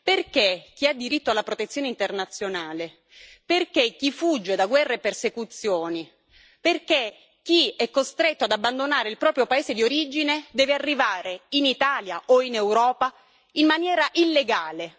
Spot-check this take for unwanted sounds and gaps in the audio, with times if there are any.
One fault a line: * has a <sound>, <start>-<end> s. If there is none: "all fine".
all fine